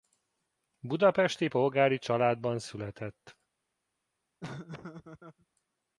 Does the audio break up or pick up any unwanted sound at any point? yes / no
yes